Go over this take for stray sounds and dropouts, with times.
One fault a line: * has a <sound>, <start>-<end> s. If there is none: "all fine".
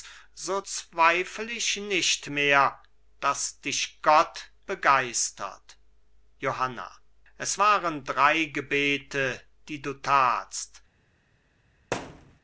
* has a thud, 11.9-12.4 s